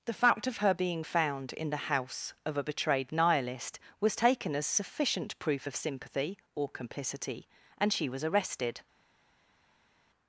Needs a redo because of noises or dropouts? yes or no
no